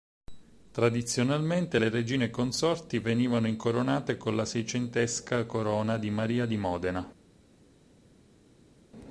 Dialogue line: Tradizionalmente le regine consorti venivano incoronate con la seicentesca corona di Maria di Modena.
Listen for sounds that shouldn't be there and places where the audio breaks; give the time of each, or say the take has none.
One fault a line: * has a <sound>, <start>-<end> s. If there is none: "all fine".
all fine